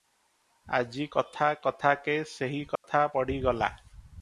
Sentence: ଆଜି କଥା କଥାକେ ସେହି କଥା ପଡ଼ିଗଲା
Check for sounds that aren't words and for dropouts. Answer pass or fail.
fail